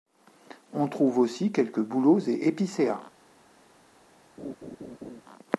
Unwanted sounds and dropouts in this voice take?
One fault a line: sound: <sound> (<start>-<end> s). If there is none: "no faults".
sound: laugh (4.4-5.2 s)